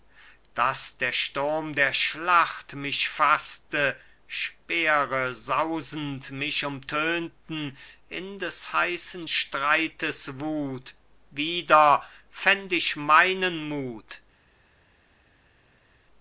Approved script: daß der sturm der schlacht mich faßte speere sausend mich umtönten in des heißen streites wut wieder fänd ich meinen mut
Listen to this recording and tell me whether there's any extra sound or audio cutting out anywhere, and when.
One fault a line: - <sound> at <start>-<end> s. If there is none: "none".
none